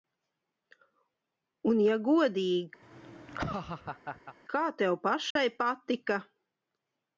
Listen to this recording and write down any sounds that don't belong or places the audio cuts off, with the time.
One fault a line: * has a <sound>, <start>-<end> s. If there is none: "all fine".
* has a laugh, 2.8-4.4 s
* has a dropout, 5.3-5.4 s